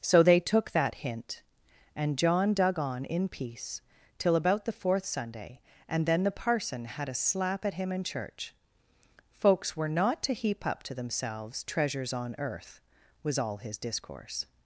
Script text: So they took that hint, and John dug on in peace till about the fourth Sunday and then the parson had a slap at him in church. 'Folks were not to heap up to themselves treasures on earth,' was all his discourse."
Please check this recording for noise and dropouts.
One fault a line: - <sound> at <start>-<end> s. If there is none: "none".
none